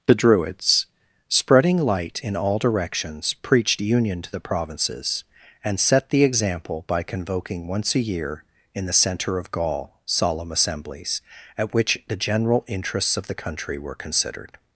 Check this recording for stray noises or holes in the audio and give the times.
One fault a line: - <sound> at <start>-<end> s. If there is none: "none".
none